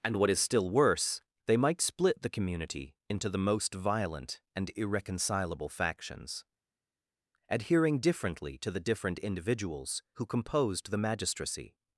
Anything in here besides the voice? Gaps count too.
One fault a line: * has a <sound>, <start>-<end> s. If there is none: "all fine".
all fine